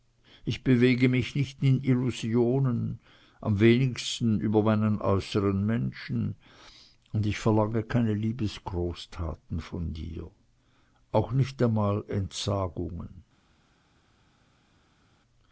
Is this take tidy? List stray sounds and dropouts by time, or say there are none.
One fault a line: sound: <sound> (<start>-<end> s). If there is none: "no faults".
no faults